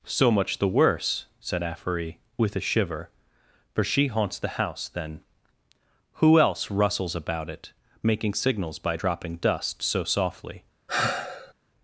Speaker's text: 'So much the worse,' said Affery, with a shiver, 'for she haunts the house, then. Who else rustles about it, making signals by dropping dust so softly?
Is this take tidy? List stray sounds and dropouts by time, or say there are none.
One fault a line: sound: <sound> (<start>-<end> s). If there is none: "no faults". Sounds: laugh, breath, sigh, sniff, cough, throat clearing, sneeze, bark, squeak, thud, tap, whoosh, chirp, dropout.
sound: sigh (10.9-11.5 s)